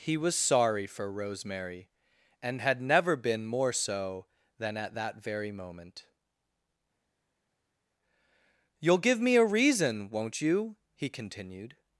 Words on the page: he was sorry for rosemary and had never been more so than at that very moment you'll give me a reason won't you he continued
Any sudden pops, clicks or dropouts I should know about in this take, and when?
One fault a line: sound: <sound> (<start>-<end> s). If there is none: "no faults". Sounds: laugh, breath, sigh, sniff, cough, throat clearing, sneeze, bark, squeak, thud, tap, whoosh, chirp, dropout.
no faults